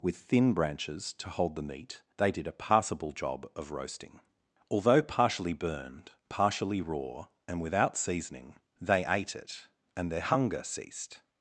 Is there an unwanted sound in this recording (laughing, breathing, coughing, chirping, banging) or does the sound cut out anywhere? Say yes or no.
no